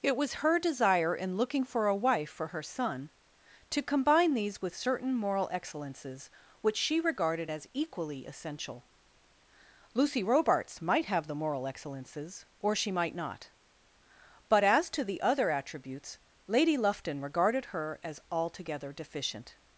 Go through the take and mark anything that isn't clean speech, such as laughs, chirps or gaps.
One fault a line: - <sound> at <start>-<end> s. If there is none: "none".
none